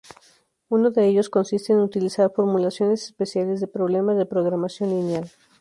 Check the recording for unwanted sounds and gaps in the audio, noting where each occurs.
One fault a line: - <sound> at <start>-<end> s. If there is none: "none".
none